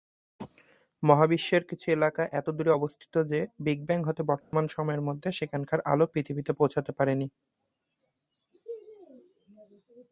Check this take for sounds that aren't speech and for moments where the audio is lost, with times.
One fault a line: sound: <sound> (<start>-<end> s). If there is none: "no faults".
sound: dropout (4.4-4.5 s)